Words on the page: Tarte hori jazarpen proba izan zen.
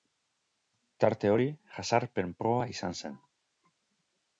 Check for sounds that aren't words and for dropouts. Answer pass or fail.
pass